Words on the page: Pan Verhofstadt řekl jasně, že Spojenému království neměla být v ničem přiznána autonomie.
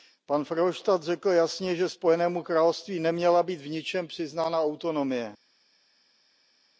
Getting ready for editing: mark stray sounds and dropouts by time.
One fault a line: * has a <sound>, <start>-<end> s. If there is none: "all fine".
all fine